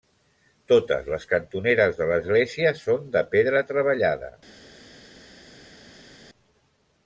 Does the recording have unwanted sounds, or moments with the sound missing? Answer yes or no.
no